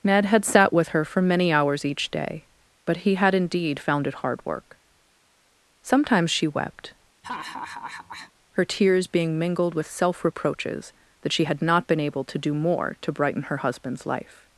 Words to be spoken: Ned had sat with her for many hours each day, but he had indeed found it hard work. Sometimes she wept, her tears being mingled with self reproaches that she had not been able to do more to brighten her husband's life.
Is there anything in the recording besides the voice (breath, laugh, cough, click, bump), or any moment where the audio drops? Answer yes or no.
yes